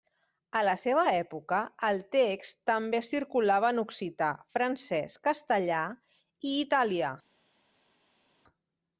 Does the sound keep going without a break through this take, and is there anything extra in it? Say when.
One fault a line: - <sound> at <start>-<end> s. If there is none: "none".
none